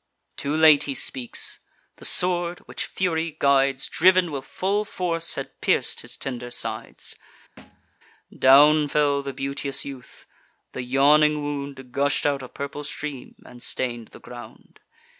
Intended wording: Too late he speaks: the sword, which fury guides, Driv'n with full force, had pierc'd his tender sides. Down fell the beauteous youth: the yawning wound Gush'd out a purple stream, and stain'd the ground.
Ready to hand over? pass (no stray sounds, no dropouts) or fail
fail